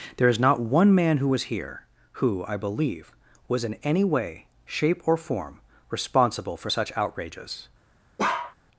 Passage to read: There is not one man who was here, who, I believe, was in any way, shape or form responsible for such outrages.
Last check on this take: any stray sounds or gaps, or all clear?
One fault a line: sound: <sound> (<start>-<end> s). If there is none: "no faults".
sound: bark (8.2-8.6 s)